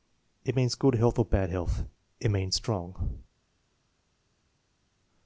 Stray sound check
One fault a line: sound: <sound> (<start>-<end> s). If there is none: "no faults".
no faults